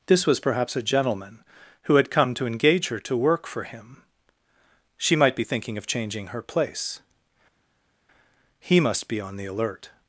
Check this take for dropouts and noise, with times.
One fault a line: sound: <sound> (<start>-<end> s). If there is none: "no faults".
no faults